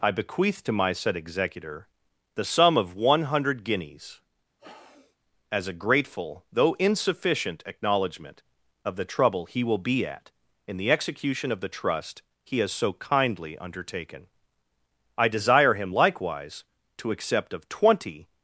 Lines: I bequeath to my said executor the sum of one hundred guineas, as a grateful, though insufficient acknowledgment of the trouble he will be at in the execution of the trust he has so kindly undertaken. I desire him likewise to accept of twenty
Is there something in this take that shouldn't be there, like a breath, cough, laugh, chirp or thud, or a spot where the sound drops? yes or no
yes